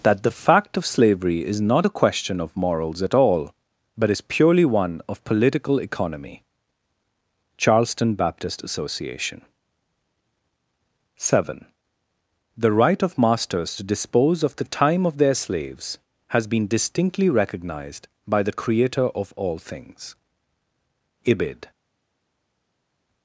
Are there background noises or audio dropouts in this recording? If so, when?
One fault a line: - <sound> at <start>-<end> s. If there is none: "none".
none